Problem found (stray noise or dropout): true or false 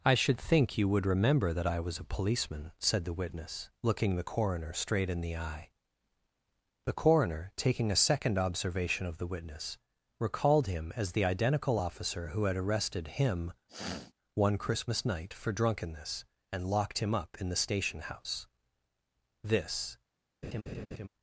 true